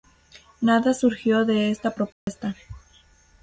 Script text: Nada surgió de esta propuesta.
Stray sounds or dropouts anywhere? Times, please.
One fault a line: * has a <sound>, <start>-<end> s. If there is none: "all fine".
* has a dropout, 2.1-2.3 s